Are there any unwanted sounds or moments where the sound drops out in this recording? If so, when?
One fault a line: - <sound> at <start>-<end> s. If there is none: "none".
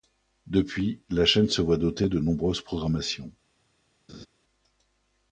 - laugh at 4.1-4.3 s